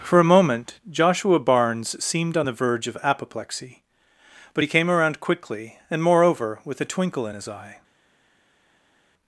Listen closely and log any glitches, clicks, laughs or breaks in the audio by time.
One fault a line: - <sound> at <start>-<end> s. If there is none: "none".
none